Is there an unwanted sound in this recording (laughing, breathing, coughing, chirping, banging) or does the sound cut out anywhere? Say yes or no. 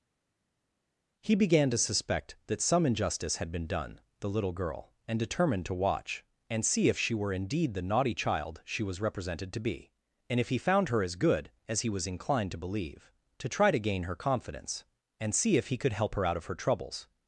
no